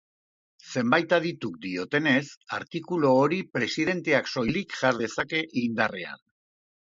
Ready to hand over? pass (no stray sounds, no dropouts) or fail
pass